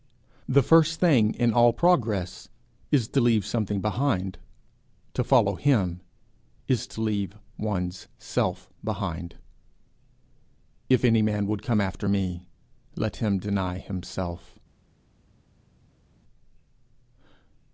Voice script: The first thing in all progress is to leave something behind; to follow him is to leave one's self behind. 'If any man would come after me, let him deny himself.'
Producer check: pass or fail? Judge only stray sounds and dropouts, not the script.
pass